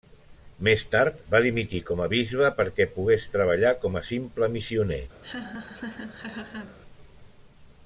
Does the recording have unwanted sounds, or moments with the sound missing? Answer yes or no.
yes